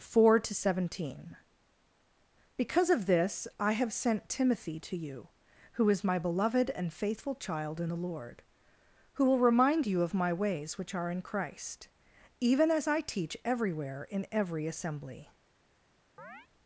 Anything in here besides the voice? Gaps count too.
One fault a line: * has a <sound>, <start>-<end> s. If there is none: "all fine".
* has a chirp, 16.2-16.5 s